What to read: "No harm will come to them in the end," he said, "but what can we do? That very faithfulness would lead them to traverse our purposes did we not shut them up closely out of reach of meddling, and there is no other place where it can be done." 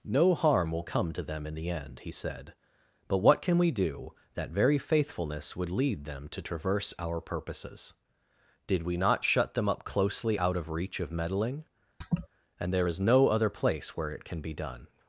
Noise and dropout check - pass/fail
fail